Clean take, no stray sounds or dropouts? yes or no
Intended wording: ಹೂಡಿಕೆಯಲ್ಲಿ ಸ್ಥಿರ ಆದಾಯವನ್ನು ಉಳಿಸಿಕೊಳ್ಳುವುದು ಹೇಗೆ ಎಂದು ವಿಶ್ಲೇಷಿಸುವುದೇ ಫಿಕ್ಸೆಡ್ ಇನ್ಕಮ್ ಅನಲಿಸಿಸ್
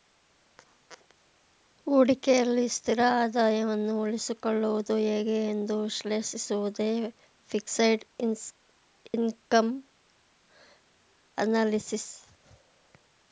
no